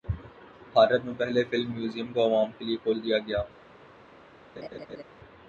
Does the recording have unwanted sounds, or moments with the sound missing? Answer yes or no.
yes